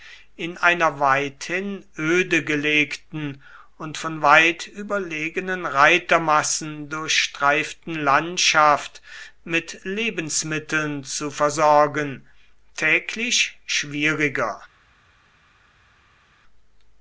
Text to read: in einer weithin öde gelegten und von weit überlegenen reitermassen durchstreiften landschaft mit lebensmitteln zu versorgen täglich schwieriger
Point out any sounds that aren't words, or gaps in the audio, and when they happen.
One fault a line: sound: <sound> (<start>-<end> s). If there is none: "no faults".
no faults